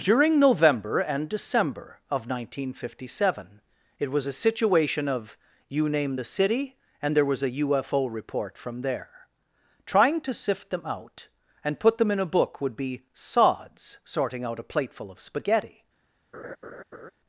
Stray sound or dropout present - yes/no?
yes